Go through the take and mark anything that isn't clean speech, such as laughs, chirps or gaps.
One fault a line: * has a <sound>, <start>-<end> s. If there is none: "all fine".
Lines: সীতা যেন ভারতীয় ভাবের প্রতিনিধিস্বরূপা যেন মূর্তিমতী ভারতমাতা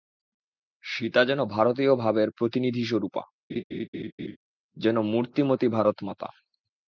* has a laugh, 3.5-4.4 s